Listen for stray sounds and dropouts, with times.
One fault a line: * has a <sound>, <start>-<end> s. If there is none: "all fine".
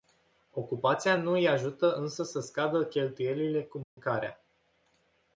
* has a dropout, 3.8-4.0 s